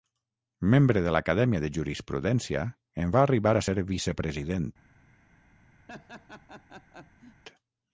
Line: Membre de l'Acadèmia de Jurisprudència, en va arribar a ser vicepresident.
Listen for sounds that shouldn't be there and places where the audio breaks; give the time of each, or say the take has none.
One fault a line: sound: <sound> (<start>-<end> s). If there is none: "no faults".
sound: laugh (5.9-7.4 s)